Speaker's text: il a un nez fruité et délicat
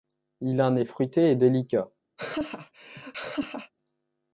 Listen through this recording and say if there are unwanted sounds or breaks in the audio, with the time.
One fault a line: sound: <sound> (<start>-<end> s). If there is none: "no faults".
sound: laugh (2.2-3.7 s)